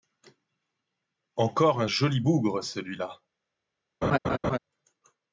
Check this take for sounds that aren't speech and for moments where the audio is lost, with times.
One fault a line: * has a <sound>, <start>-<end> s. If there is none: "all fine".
* has a laugh, 4.0-4.6 s